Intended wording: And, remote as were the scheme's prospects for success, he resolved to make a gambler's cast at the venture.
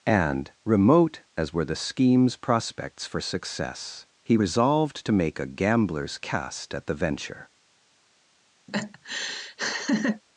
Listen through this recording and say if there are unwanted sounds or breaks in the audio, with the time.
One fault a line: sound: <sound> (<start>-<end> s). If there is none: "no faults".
sound: laugh (8.7-10.2 s)